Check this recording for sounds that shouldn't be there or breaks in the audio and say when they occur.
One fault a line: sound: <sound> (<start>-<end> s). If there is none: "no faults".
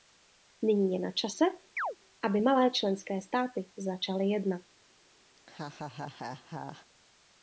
sound: chirp (1.8-2.0 s)
sound: laugh (5.4-6.9 s)